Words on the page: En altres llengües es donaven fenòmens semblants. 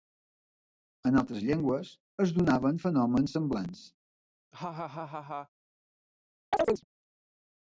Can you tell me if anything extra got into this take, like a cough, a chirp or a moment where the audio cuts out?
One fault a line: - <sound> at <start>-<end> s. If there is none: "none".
- laugh at 4.5-5.5 s
- chirp at 6.5-6.8 s